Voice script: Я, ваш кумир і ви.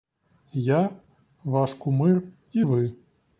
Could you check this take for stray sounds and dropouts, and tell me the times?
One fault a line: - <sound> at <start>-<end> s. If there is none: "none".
none